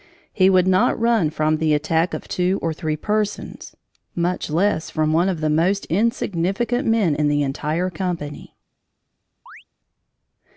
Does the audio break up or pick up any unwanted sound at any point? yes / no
yes